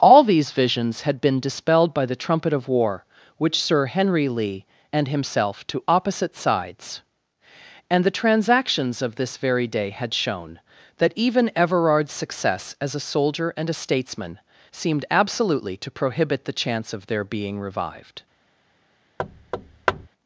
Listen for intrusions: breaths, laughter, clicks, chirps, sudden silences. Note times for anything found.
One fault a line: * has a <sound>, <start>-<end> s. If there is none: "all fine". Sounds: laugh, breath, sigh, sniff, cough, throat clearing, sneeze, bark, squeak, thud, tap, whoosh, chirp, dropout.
* has a thud, 19.2-20.1 s